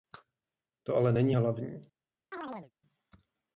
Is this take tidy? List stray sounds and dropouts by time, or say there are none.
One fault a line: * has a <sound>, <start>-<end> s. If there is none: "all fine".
* has a chirp, 2.3-2.7 s